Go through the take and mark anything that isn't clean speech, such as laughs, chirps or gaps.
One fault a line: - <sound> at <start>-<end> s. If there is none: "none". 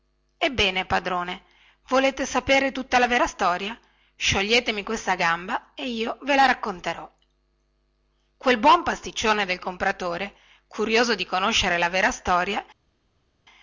none